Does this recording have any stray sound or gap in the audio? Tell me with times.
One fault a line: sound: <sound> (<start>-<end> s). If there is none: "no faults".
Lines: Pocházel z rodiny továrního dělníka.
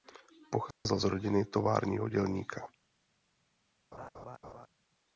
sound: dropout (0.7-0.9 s)
sound: laugh (3.9-4.7 s)